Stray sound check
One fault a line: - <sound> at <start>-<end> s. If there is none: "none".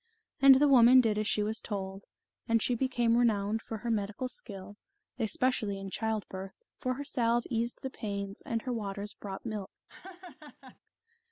- laugh at 9.9-10.8 s